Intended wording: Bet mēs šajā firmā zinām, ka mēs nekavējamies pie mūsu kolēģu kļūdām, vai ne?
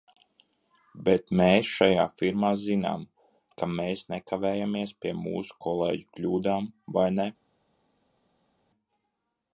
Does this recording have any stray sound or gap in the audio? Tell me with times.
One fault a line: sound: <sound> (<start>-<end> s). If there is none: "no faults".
no faults